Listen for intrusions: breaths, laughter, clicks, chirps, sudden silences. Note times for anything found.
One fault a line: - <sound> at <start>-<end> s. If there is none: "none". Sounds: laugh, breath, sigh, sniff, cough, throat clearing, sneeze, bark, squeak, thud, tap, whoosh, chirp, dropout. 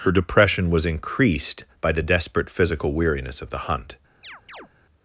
- chirp at 4.2-4.7 s